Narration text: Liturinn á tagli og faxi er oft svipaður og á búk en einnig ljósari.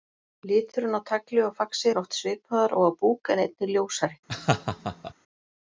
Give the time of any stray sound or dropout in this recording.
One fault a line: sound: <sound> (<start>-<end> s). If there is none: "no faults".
sound: laugh (4.3-5.1 s)